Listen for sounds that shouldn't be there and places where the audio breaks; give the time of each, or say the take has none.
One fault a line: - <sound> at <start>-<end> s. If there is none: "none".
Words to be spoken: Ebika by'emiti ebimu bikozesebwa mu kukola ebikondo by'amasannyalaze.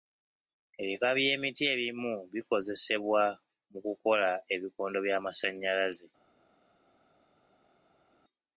none